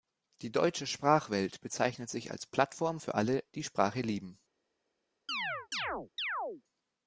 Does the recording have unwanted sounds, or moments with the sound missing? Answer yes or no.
yes